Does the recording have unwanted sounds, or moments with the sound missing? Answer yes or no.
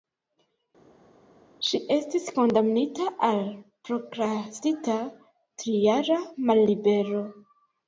no